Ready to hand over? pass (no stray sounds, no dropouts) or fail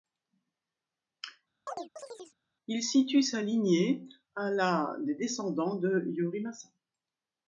fail